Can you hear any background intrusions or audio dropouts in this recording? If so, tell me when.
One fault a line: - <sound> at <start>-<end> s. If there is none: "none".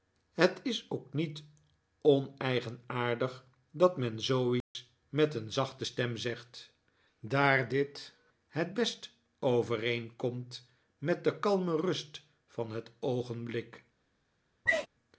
- dropout at 4.6-4.7 s
- sneeze at 14.7-14.9 s